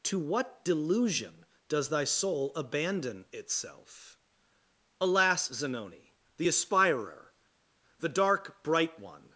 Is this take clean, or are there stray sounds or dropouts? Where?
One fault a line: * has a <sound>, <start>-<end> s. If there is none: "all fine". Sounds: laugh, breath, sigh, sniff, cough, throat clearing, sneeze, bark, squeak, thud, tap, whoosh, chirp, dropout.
all fine